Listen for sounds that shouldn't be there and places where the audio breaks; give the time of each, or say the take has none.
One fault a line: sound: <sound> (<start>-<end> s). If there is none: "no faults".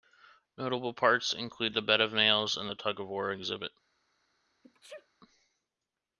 sound: sneeze (4.6-5.1 s)